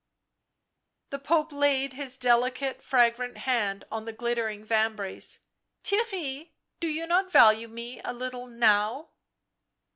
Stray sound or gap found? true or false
false